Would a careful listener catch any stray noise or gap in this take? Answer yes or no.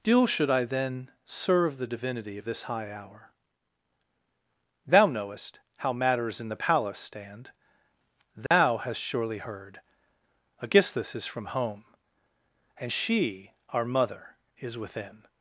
yes